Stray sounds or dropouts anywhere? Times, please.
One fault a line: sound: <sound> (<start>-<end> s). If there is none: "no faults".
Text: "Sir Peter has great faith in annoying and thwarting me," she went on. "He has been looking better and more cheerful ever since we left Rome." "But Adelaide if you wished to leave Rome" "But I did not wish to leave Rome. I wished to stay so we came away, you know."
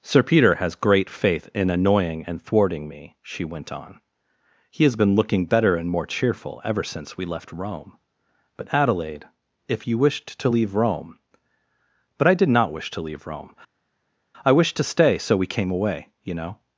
no faults